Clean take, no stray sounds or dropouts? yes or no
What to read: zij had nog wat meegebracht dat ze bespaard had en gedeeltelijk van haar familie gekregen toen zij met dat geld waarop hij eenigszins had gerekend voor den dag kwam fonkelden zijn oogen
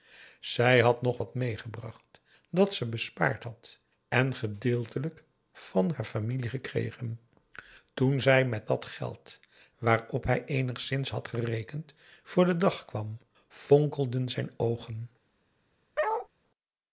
no